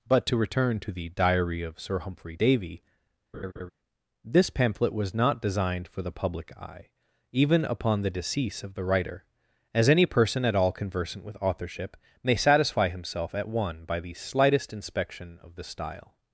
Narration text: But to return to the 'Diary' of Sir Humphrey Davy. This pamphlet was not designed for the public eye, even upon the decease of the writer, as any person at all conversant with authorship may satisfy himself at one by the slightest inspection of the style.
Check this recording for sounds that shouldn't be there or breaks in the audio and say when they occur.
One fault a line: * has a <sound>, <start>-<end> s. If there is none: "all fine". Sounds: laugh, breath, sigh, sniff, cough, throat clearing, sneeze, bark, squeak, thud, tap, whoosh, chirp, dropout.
* has a laugh, 3.3-3.7 s